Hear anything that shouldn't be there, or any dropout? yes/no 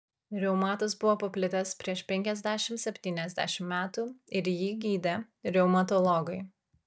no